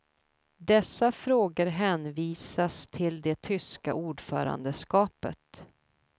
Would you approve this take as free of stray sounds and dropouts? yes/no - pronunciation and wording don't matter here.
yes